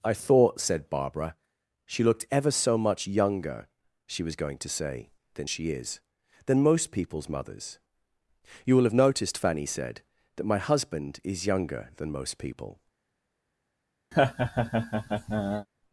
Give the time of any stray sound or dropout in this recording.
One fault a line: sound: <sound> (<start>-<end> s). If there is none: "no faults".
sound: laugh (14.1-15.7 s)